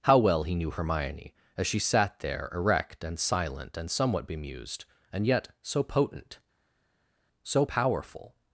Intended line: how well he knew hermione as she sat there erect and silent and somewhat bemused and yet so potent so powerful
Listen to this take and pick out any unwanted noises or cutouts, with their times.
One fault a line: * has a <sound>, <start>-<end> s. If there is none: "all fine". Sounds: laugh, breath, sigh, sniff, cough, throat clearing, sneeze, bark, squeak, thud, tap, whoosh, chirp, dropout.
all fine